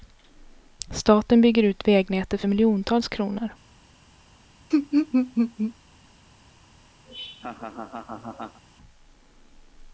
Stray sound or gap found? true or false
true